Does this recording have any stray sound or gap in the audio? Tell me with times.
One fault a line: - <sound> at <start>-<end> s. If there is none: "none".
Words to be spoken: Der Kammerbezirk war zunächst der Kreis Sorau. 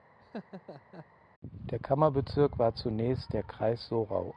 - laugh at 0.2-1.1 s